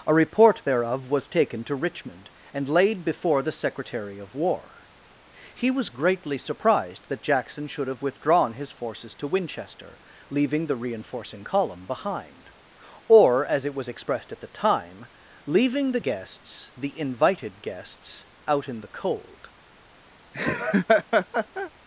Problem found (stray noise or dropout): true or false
true